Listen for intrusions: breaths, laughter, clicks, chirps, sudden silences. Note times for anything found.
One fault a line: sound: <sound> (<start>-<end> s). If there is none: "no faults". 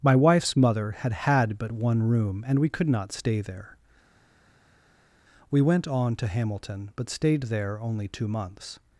no faults